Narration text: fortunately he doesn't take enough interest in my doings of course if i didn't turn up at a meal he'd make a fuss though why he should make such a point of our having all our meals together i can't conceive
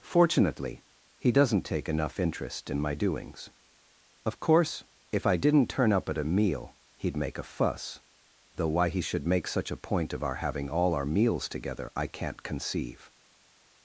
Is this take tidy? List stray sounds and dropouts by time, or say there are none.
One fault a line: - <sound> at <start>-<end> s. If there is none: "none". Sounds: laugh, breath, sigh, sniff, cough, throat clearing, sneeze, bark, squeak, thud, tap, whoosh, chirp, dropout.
none